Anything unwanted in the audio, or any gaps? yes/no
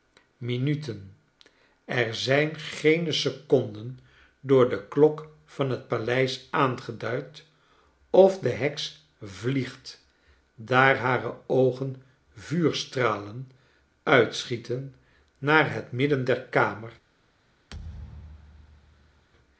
yes